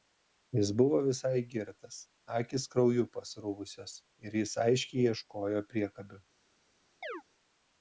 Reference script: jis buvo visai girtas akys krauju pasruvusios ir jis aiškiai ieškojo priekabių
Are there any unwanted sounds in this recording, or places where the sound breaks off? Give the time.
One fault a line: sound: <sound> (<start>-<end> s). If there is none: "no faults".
sound: chirp (7.0-7.2 s)